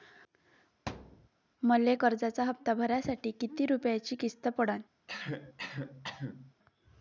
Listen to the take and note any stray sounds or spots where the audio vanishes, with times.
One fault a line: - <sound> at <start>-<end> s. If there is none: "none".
- thud at 0.9-1.3 s
- cough at 5.1-6.5 s